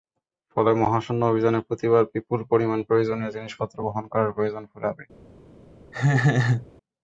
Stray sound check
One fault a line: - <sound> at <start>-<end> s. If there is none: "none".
- laugh at 5.9-6.7 s